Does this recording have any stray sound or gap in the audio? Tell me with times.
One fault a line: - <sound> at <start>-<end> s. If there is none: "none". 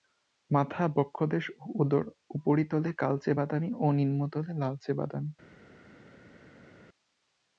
none